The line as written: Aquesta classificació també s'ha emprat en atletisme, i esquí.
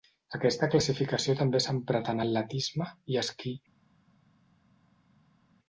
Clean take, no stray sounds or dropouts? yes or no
yes